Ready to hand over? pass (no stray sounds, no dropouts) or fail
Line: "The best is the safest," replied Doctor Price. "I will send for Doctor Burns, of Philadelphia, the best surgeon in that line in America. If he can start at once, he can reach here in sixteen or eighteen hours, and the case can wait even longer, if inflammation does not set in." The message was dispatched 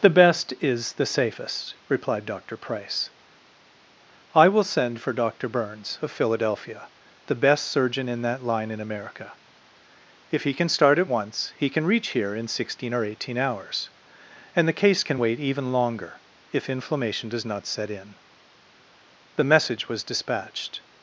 pass